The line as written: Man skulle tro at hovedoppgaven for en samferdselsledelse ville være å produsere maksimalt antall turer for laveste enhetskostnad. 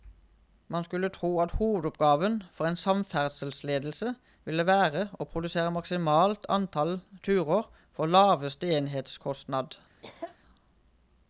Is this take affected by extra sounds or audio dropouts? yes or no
yes